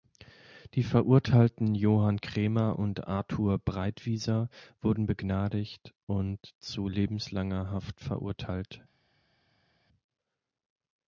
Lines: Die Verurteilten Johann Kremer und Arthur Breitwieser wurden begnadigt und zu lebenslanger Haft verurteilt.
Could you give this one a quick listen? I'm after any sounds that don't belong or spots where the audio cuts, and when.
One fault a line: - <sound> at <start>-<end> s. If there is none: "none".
none